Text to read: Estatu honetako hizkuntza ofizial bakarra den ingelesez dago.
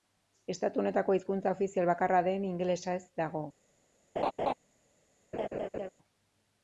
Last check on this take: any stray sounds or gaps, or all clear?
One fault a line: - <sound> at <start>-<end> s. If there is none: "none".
- laugh at 4.2-4.5 s
- laugh at 5.3-5.9 s